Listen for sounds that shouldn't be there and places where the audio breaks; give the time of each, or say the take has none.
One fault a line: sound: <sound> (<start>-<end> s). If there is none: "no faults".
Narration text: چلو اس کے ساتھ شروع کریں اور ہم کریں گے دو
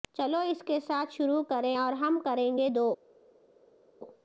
no faults